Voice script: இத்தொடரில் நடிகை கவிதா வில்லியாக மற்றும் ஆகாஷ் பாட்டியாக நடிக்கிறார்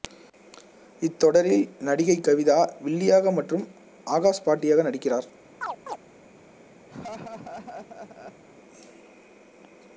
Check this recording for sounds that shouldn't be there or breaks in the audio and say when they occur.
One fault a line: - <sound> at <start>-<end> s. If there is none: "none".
- chirp at 5.6-6.0 s
- laugh at 6.9-8.4 s